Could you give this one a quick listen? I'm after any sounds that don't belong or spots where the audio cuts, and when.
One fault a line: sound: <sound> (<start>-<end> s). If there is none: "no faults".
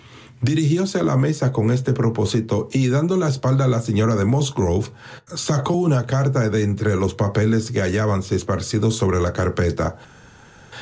no faults